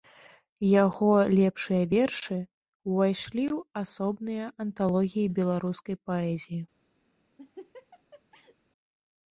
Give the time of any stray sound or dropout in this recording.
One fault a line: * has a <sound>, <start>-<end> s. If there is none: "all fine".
* has a laugh, 7.4-8.6 s